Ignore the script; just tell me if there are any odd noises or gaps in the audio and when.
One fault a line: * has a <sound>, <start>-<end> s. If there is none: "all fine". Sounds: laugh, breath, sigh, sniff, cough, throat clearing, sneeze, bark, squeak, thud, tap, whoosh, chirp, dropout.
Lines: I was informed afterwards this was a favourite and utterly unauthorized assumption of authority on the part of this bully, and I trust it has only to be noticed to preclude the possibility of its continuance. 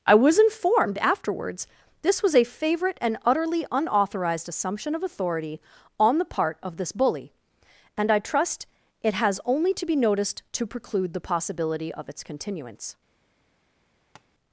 * has a tap, 14.2-14.3 s